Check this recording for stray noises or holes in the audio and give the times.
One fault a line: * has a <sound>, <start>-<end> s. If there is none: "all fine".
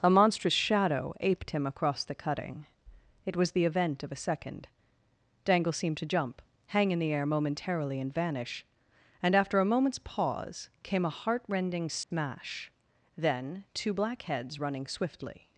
* has a dropout, 12.0-12.1 s